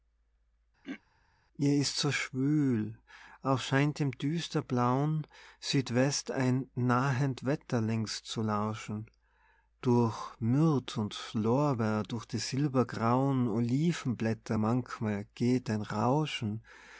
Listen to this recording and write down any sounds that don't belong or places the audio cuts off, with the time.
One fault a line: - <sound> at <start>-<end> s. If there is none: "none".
- throat clearing at 0.8-1.0 s